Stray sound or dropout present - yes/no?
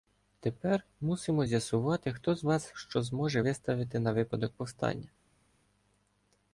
no